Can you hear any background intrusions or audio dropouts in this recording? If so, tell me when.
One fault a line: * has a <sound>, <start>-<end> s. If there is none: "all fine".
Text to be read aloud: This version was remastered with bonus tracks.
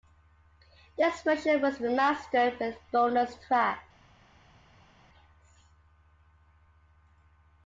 all fine